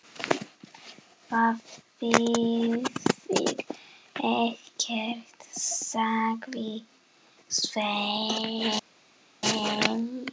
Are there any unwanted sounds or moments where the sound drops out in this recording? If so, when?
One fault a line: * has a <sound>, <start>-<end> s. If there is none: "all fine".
all fine